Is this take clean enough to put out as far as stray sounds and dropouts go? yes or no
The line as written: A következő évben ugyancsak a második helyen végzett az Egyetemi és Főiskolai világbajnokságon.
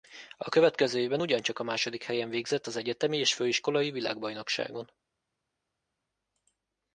yes